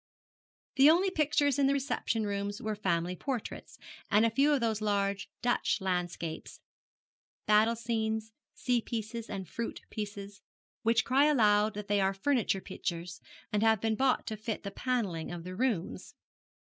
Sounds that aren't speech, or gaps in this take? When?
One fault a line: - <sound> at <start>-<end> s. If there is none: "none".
none